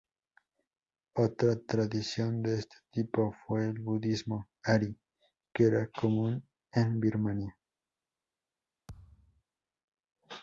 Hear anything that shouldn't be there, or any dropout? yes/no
yes